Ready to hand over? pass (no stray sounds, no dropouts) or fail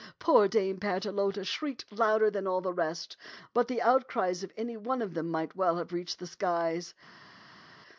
pass